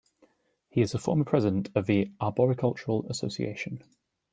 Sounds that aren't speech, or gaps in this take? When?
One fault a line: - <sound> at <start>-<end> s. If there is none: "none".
none